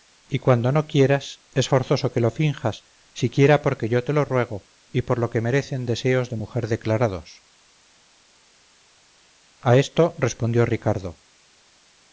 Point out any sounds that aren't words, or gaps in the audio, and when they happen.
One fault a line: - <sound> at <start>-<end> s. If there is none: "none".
none